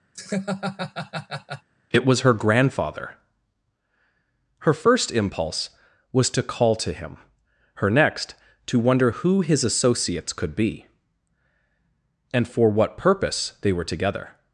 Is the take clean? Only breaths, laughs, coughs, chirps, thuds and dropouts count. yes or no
no